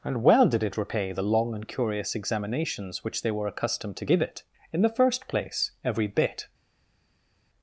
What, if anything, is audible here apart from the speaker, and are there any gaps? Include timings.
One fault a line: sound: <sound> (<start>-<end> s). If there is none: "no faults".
no faults